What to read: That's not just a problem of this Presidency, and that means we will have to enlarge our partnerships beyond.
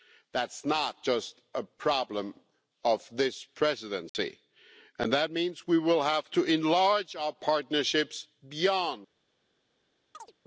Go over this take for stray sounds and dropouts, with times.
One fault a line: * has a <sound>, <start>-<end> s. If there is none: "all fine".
* has a dropout, 4.1-4.1 s
* has a chirp, 10.1-10.3 s